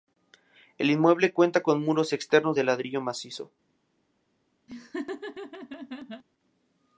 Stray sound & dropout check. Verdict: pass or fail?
fail